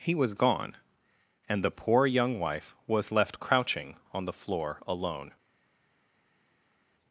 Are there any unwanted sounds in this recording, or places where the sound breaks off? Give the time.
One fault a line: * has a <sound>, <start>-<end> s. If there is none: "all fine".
all fine